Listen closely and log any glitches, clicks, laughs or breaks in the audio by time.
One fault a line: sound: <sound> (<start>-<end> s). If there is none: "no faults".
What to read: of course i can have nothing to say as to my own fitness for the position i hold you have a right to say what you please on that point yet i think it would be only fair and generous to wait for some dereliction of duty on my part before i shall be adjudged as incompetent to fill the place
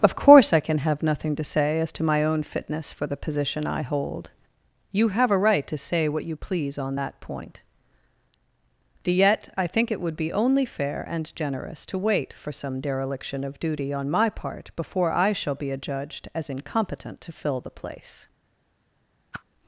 sound: whoosh (19.3-19.4 s)